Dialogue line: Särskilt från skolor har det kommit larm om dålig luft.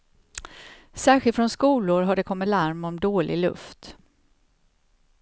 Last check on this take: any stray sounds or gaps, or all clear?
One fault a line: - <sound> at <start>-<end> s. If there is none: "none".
none